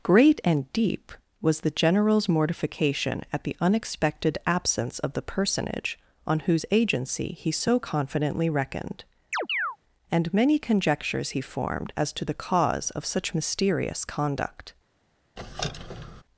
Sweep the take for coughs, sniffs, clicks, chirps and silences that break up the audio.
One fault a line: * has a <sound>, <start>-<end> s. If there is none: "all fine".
* has a chirp, 9.3-9.8 s
* has a squeak, 15.4-16.2 s